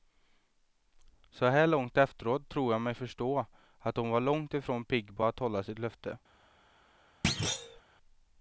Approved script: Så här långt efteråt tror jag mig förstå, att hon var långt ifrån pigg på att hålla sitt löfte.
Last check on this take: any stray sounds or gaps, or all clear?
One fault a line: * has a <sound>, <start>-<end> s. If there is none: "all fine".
* has a thud, 7.2-7.8 s